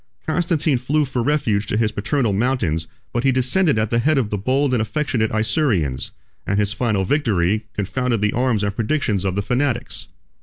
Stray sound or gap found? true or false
false